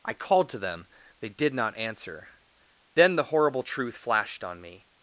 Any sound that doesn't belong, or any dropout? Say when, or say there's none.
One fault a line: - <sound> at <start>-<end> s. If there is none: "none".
none